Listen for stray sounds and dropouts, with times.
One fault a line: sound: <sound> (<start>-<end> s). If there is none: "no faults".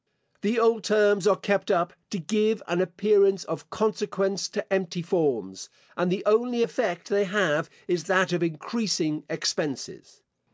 no faults